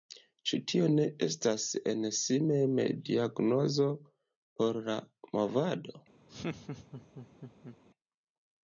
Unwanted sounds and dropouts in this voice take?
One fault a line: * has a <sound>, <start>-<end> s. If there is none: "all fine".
* has a laugh, 6.3-7.8 s